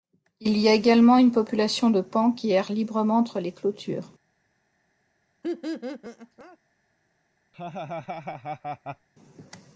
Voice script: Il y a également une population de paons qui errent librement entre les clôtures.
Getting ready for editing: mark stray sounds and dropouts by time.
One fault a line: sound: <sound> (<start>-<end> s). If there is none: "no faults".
sound: laugh (5.4-6.6 s)
sound: laugh (7.5-9.1 s)